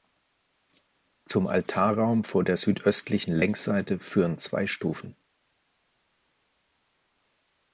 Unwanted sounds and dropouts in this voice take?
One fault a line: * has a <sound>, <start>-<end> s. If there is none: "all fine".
all fine